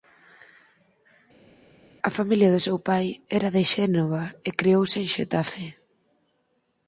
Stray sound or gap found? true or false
false